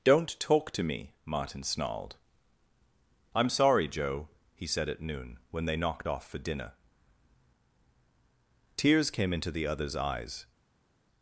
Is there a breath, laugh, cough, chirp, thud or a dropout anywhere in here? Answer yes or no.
no